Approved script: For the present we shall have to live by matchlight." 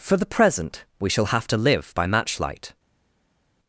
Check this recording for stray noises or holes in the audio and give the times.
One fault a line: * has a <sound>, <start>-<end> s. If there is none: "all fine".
all fine